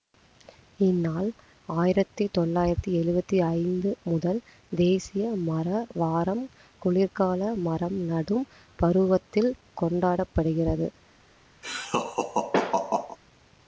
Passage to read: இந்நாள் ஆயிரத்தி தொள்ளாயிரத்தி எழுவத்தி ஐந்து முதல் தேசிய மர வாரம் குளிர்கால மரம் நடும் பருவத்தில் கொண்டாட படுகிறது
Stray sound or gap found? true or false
true